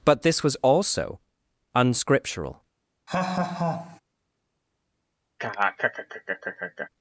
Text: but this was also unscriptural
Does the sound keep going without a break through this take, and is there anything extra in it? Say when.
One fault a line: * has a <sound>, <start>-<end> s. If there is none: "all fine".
* has a laugh, 3.1-4.0 s
* has a laugh, 5.4-6.9 s